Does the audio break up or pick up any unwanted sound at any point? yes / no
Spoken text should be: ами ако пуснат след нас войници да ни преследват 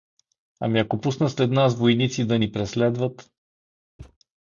yes